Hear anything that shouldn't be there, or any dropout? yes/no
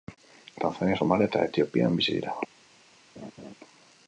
yes